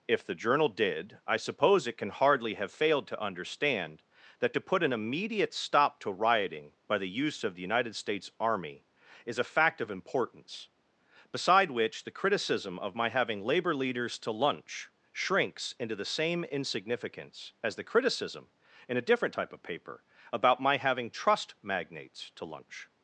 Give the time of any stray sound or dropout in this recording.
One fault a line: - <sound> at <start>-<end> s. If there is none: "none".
none